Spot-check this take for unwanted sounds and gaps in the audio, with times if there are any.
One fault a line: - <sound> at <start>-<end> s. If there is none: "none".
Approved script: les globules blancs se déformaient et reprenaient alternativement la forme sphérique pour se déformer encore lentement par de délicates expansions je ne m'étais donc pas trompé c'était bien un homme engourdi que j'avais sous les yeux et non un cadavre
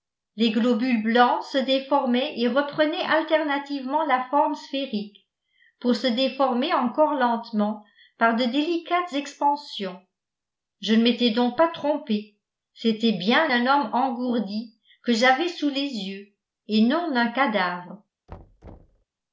- thud at 18.3-19.0 s